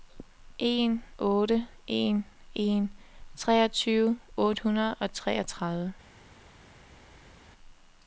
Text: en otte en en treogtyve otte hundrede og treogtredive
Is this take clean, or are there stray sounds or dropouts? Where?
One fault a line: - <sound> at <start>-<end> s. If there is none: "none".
none